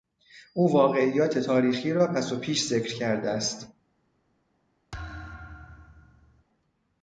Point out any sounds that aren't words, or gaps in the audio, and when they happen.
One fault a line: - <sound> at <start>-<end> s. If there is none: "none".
- thud at 4.9-6.4 s